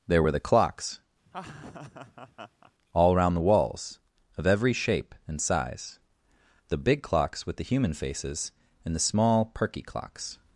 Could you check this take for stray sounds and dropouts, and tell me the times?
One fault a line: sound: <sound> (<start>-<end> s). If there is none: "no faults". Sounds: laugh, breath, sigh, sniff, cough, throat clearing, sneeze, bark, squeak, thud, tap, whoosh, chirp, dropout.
sound: laugh (1.3-2.7 s)